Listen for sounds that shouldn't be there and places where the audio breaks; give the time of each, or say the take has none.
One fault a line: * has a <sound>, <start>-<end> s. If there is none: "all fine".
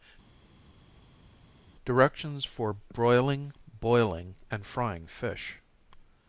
all fine